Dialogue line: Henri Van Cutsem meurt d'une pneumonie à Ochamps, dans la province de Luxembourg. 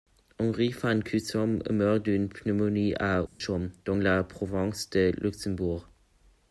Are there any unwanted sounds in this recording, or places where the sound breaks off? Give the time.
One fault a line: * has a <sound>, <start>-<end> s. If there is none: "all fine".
* has a dropout, 3.3-3.4 s